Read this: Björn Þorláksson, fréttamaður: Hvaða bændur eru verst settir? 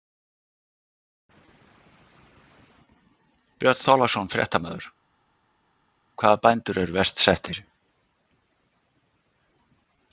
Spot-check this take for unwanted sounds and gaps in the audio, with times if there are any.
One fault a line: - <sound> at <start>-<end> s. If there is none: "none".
none